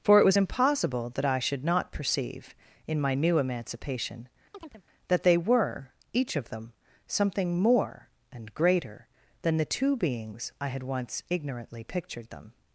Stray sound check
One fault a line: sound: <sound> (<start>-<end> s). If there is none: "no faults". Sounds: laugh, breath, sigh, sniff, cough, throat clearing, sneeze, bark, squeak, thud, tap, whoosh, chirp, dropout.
sound: chirp (4.5-4.8 s)